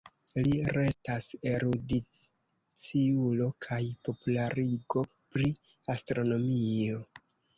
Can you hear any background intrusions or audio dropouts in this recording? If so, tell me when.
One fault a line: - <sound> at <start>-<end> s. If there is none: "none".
none